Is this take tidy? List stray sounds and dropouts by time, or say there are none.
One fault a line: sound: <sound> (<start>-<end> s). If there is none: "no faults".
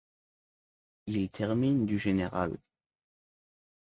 no faults